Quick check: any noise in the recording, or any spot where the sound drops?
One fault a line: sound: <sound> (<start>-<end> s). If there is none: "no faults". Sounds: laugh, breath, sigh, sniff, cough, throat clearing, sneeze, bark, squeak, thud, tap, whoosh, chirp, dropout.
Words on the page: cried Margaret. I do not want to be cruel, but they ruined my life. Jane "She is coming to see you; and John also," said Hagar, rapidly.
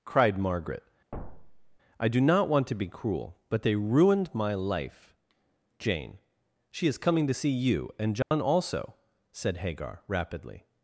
sound: thud (1.1-1.8 s)
sound: dropout (8.2-8.3 s)